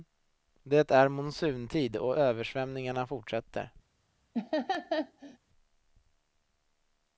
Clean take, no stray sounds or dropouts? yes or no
no